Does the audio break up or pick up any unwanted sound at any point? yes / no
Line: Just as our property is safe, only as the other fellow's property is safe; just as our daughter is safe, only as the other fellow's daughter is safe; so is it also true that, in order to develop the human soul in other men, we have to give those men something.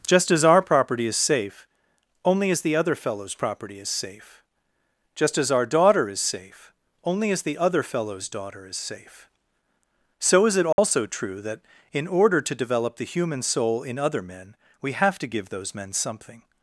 yes